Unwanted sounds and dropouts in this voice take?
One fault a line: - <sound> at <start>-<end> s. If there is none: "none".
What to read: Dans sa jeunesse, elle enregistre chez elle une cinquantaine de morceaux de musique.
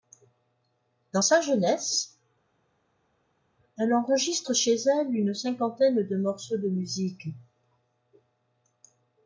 none